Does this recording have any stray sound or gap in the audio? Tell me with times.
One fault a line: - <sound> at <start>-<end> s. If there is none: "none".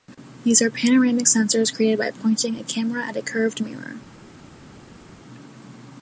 none